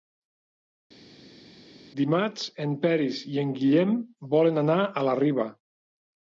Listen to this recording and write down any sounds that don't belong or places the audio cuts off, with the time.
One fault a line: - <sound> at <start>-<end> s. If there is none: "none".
none